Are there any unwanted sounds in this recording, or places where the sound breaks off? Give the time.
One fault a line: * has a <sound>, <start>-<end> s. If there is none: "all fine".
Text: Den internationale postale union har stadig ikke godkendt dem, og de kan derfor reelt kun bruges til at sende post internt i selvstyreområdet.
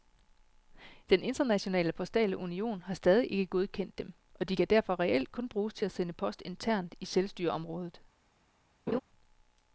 * has a laugh, 8.9-9.0 s